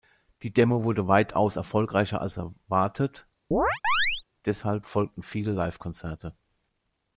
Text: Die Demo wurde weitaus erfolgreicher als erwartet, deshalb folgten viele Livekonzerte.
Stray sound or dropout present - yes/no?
yes